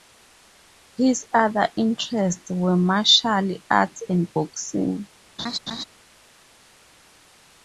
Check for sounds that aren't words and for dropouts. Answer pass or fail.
fail